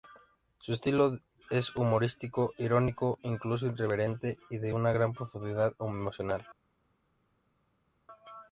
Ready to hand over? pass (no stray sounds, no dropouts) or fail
pass